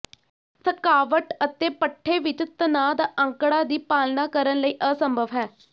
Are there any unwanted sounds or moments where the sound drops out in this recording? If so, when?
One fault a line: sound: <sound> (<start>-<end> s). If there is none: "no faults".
no faults